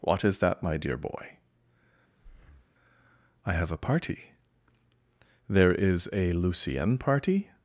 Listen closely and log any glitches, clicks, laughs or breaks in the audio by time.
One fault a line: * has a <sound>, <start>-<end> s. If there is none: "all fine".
* has a breath, 2.2-2.7 s